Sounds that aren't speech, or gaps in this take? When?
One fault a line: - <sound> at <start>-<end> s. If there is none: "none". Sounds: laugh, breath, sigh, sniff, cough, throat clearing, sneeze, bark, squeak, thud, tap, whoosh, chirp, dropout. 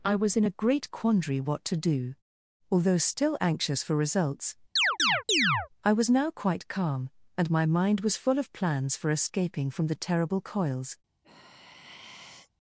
- chirp at 4.8-5.7 s
- sigh at 11.2-12.5 s